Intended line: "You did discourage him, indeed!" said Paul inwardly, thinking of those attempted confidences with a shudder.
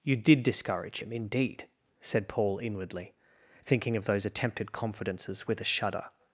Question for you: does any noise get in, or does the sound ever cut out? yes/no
no